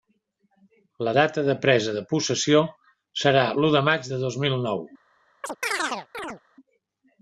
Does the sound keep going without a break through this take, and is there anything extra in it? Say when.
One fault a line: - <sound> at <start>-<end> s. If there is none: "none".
- chirp at 5.4-6.4 s